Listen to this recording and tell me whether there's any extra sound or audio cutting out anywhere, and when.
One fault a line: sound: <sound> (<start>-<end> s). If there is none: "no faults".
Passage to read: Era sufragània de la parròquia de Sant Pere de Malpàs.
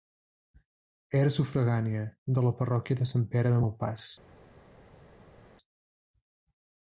no faults